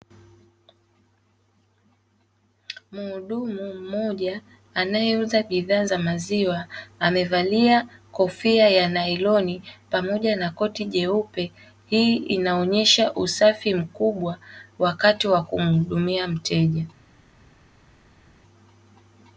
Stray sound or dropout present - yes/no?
no